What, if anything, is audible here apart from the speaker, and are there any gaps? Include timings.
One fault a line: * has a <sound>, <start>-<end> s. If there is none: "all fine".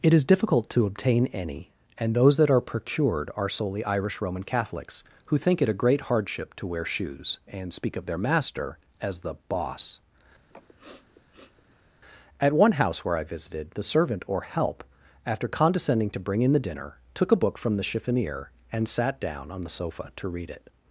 * has a sniff, 10.5-11.9 s